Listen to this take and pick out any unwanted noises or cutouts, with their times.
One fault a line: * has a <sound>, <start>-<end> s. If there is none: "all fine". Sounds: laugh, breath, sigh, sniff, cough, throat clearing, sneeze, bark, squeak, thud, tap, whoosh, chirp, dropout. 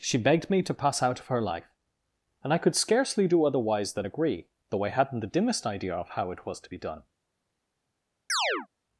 * has a chirp, 8.3-8.7 s